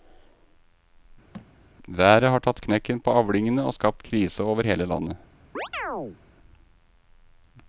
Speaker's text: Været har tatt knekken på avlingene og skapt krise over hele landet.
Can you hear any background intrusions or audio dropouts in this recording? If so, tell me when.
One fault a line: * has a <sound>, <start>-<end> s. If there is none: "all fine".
* has a thud, 1.3-1.5 s
* has a chirp, 5.5-6.2 s